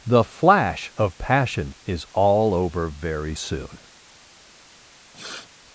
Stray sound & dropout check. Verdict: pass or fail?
fail